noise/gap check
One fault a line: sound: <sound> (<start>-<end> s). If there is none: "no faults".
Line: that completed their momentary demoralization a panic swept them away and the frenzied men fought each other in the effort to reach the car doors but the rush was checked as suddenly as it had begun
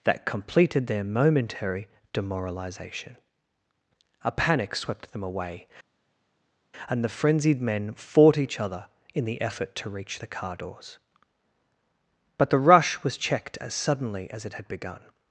no faults